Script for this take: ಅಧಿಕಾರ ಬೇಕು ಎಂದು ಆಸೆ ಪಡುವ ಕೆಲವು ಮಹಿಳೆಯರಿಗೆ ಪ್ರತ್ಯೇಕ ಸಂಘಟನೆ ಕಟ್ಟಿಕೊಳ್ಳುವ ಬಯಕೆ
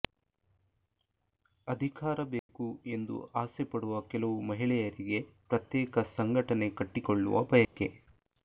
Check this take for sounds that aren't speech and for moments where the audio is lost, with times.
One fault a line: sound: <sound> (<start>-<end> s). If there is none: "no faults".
sound: dropout (2.4-2.5 s)
sound: dropout (7.6-7.8 s)